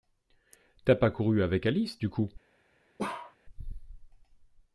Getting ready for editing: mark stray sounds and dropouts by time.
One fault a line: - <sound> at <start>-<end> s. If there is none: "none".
- bark at 3.0-3.4 s